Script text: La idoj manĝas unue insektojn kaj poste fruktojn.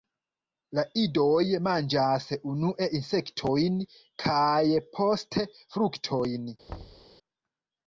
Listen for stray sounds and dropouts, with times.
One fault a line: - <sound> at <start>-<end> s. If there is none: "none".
- thud at 6.7-7.1 s